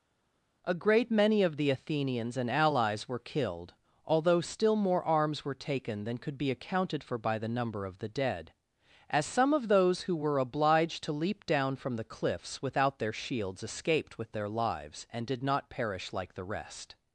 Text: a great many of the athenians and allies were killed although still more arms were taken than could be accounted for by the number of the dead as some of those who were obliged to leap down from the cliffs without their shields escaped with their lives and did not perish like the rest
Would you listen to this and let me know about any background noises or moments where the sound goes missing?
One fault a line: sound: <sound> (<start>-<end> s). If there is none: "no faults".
no faults